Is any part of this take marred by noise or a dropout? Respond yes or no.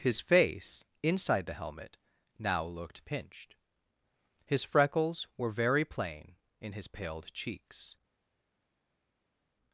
no